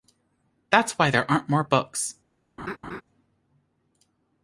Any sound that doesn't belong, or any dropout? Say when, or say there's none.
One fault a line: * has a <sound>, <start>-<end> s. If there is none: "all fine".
* has a laugh, 2.6-3.0 s